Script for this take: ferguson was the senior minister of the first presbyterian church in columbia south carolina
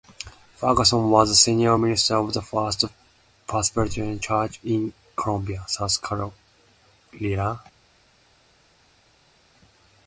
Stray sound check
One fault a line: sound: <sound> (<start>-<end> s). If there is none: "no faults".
no faults